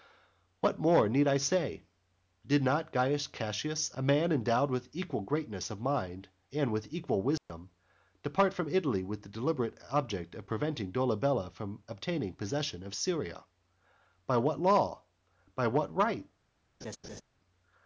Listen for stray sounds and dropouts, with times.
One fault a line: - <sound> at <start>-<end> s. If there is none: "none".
- dropout at 7.4-7.5 s
- laugh at 16.8-17.2 s